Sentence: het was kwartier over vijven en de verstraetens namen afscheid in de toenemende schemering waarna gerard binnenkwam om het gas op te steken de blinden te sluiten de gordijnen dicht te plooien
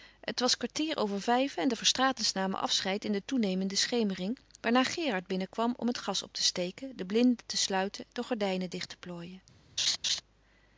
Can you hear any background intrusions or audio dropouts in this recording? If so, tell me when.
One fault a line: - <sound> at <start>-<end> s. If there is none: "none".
- laugh at 9.8-10.2 s